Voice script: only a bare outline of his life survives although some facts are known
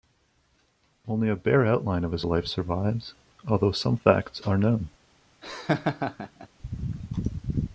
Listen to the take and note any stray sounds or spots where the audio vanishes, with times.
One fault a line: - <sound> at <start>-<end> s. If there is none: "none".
- laugh at 5.4-6.5 s